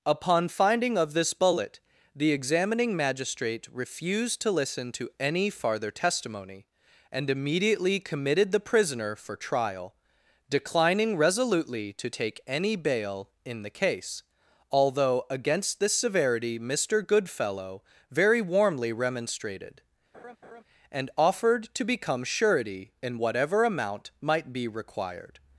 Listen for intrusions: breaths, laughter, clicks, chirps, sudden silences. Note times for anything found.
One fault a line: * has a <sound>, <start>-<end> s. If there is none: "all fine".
* has a laugh, 20.1-20.6 s